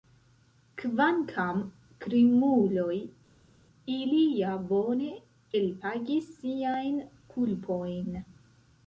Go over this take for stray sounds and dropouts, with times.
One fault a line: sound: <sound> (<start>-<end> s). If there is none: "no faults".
no faults